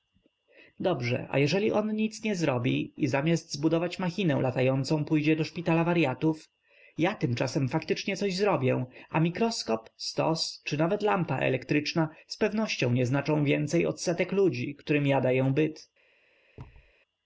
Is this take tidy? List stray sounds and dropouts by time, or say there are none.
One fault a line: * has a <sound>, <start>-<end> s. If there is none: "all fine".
* has a thud, 16.6-16.9 s